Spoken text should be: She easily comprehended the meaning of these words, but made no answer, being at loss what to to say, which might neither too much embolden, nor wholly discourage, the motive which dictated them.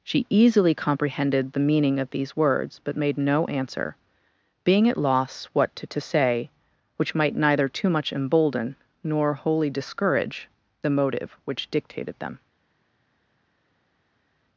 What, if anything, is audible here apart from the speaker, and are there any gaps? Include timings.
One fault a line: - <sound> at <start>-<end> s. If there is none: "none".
none